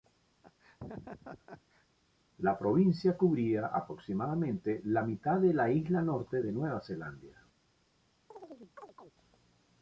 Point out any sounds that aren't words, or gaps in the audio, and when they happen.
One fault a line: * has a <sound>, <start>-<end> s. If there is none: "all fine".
* has a laugh, 0.4-1.9 s
* has a chirp, 8.3-9.1 s